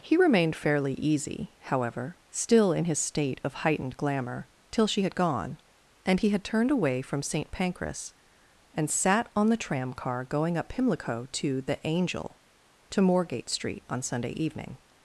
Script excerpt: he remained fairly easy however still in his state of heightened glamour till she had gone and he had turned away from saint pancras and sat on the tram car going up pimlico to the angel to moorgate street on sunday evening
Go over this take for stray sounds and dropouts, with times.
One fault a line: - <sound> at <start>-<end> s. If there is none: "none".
none